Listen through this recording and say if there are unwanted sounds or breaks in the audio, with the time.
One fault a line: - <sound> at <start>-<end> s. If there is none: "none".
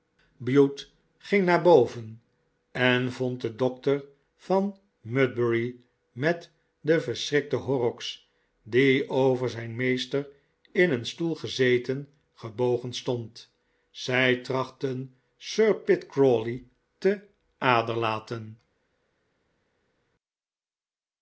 none